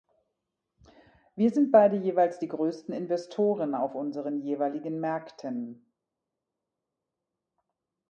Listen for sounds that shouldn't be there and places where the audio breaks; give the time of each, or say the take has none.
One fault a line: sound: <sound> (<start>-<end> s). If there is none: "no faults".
no faults